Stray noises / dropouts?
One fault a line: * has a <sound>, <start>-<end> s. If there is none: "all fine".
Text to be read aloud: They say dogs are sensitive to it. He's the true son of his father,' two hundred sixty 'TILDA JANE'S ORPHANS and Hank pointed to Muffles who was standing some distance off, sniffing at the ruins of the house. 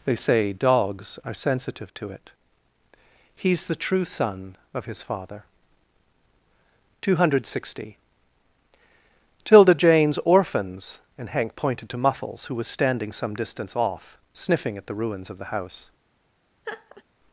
* has a laugh, 16.6-17.0 s